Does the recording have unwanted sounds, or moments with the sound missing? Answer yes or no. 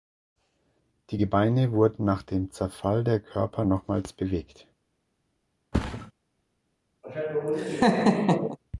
yes